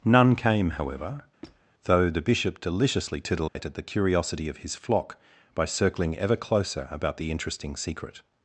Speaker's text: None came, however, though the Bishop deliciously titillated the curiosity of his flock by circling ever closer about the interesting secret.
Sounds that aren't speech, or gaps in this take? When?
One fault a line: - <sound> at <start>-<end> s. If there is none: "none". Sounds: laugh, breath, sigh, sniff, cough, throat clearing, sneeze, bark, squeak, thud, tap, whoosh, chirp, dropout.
- squeak at 1.4-1.6 s
- dropout at 3.5-3.6 s